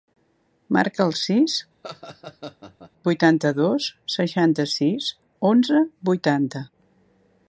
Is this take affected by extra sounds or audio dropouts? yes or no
yes